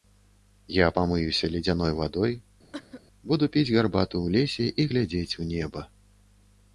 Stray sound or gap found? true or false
true